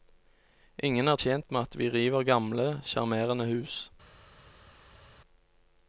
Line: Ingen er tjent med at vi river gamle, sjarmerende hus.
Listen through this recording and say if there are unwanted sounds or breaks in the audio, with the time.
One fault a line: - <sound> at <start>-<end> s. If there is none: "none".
none